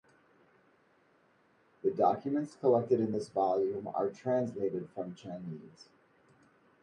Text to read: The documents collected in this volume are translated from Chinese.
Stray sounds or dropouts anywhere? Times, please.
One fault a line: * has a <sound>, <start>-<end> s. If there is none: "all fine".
all fine